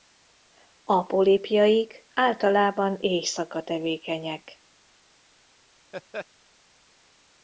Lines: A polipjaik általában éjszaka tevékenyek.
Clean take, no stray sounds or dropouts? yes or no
no